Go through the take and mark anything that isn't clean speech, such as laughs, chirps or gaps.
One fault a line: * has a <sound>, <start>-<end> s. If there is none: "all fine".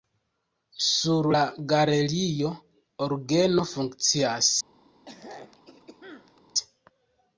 * has a throat clearing, 5.1-6.5 s